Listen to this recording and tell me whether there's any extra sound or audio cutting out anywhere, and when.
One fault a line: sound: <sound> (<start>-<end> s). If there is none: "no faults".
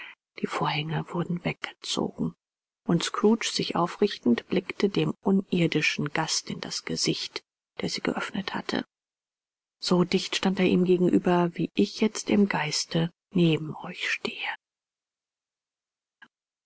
no faults